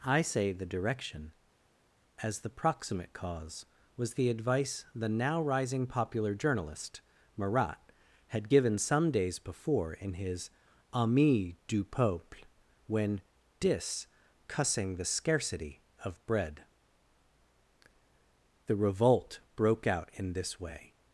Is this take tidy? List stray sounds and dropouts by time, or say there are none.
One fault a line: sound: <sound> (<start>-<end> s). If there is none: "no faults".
no faults